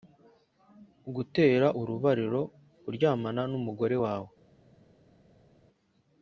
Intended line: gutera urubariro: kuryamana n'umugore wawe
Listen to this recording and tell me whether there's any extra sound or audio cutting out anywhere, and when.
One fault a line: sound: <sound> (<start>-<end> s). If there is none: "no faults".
no faults